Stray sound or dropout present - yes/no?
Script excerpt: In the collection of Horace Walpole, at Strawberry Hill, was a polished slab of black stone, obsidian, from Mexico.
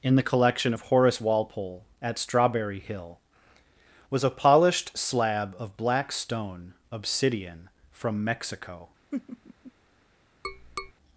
yes